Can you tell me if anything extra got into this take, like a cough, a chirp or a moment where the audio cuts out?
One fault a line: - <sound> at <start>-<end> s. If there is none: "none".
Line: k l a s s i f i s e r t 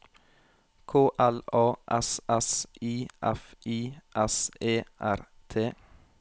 none